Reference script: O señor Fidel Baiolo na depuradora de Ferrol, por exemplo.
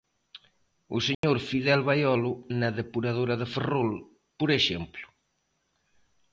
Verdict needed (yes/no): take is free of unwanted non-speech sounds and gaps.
no